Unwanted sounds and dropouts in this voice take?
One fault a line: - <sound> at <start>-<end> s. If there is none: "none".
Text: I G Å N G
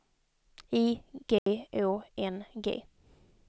- dropout at 1.4-1.5 s